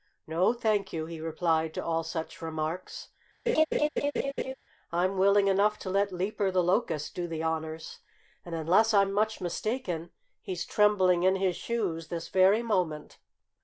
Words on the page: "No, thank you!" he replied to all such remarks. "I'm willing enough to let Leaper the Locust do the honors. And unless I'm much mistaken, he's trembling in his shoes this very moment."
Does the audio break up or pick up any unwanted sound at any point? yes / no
yes